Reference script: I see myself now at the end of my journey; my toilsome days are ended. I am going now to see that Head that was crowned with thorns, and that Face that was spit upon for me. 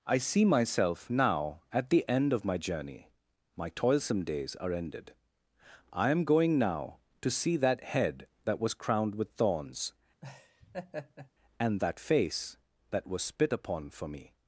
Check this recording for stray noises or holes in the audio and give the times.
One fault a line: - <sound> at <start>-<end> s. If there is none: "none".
- laugh at 10.2-11.3 s